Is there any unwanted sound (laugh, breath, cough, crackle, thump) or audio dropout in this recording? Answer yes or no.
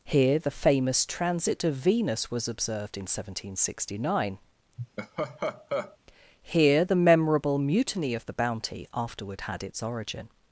yes